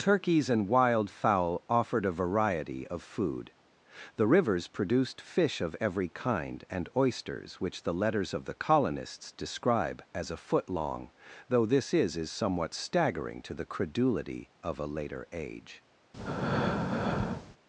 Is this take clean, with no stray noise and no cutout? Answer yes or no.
no